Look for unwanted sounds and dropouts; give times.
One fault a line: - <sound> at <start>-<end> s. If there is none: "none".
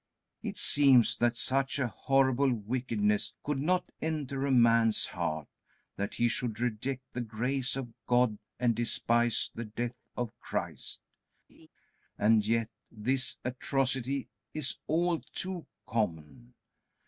- laugh at 11.5-11.7 s